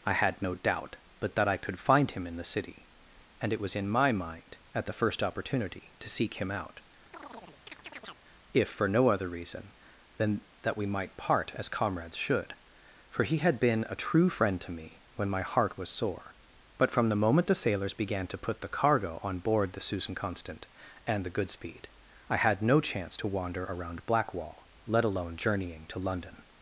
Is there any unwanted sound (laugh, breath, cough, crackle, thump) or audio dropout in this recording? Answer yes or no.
yes